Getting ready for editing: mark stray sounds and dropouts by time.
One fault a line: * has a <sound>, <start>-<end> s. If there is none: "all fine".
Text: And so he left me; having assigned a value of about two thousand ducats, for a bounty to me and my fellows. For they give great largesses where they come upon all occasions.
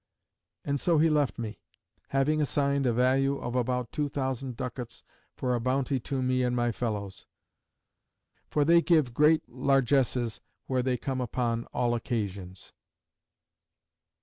all fine